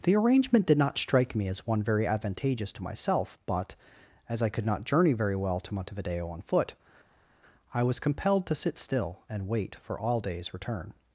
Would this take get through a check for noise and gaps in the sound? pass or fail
pass